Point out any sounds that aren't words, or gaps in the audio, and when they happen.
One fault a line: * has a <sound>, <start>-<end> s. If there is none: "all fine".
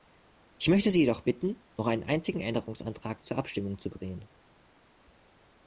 all fine